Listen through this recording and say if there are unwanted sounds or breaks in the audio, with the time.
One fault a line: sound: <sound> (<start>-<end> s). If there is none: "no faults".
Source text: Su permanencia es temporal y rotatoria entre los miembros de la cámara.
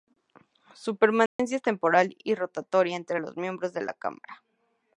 sound: dropout (1.3-1.4 s)